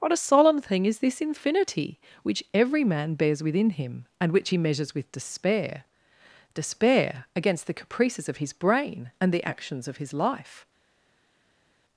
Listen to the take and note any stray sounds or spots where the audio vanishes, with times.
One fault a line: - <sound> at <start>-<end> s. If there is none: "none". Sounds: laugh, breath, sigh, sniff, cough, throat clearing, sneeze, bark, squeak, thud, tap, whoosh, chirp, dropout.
none